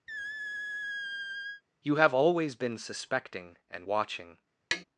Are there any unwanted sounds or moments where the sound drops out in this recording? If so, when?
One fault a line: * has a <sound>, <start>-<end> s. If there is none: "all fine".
* has a squeak, 0.1-1.6 s
* has a tap, 4.7-4.8 s